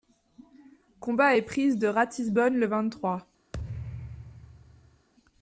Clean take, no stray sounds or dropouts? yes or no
no